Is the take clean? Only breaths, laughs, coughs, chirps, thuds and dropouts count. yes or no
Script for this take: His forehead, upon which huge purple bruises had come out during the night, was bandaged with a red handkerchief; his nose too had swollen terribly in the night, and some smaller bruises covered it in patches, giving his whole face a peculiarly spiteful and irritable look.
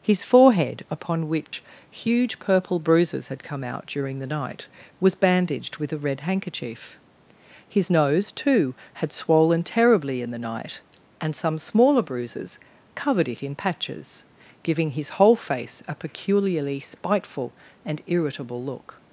no